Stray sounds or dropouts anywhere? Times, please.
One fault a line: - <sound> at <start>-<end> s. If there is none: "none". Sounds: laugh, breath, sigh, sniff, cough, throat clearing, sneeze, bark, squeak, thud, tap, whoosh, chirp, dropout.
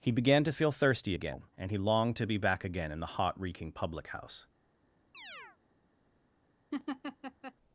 - chirp at 5.1-5.6 s
- laugh at 6.7-7.5 s